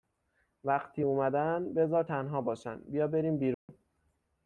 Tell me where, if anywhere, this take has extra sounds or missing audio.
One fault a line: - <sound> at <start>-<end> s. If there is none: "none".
- dropout at 3.5-3.7 s